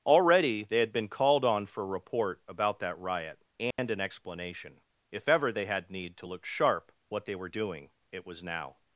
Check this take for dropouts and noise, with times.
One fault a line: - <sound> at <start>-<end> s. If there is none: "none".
- dropout at 3.7-3.8 s